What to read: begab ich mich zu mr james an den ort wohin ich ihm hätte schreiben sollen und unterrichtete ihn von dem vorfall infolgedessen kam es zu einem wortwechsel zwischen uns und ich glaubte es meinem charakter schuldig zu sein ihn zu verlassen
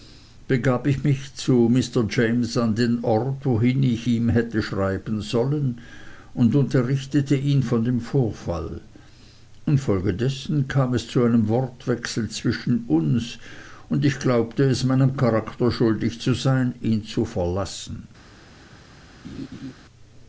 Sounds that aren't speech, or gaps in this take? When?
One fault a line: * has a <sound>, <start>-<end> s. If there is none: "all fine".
* has a laugh, 19.2-19.7 s